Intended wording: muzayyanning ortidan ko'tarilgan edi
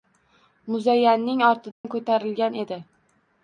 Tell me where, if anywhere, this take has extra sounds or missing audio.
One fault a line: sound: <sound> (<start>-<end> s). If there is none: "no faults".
sound: dropout (1.7-1.8 s)